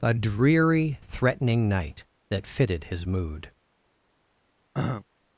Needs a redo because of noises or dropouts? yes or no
yes